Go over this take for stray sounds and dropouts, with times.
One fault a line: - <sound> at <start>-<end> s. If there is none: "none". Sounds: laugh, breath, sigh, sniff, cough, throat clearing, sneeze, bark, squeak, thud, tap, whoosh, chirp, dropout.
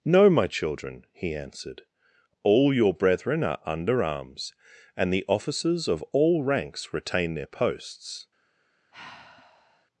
- sigh at 8.9-9.9 s